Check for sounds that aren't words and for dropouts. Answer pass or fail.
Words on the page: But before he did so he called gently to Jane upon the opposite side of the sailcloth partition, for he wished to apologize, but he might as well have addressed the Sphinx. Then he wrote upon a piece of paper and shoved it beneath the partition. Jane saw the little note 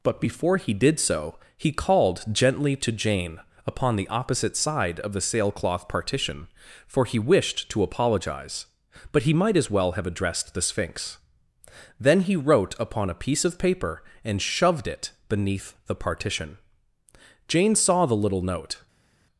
pass